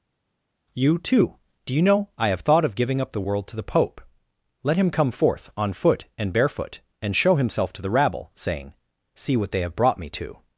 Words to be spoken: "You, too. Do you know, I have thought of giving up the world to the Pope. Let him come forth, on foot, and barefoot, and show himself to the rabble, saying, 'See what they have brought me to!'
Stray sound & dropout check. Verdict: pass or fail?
pass